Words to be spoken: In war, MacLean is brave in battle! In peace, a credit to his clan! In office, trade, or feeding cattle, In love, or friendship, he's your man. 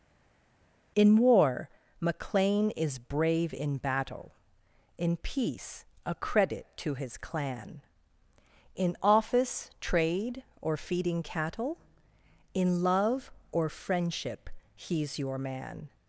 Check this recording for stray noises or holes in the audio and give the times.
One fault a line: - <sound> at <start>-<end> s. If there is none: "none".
none